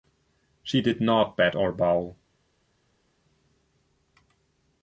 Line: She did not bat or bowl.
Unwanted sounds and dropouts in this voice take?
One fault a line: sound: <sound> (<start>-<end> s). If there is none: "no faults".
no faults